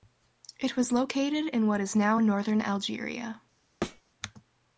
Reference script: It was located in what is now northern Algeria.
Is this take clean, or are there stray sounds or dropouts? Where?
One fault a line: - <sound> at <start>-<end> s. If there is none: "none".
- thud at 3.8-4.0 s